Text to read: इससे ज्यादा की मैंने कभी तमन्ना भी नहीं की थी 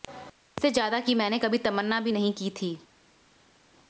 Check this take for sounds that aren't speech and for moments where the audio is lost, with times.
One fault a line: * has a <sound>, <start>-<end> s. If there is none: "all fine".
all fine